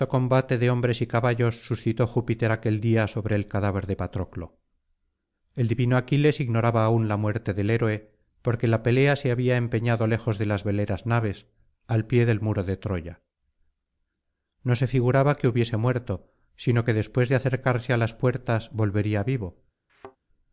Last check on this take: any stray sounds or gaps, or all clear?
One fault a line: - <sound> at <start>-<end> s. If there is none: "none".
- thud at 19.9-20.2 s